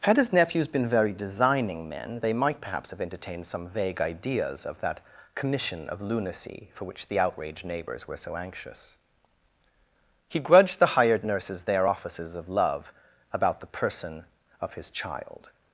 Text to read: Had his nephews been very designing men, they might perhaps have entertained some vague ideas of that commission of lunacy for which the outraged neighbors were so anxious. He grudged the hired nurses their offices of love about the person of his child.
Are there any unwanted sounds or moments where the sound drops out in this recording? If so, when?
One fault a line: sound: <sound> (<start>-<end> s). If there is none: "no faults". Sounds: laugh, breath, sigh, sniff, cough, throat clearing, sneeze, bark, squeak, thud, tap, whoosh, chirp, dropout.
no faults